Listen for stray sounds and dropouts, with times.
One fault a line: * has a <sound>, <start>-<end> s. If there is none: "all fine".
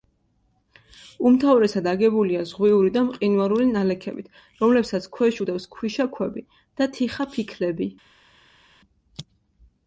all fine